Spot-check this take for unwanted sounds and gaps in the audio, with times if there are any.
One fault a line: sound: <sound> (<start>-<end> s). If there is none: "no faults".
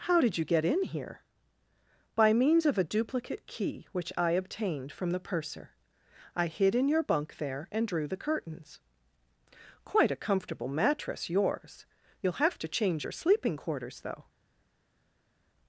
no faults